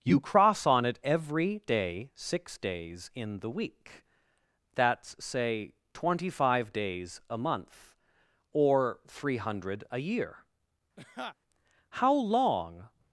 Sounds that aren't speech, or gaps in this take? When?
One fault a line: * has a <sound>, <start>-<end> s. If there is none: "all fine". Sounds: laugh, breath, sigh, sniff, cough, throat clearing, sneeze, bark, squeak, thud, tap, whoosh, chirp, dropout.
* has a laugh, 11.0-11.4 s